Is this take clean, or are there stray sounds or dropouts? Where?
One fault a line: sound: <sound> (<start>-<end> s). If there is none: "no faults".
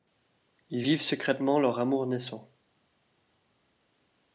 no faults